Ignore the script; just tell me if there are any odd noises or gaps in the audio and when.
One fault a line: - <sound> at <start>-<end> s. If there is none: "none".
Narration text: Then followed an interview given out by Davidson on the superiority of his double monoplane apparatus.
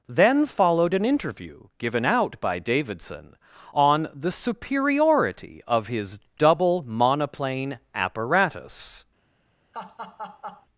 - laugh at 9.7-10.7 s